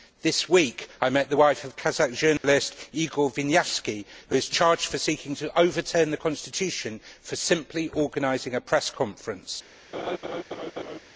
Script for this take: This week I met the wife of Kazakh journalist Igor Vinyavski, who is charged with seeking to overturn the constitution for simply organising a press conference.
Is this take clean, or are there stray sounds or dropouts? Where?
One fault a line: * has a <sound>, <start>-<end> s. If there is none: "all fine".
* has a dropout, 2.4-2.4 s
* has a laugh, 9.9-11.0 s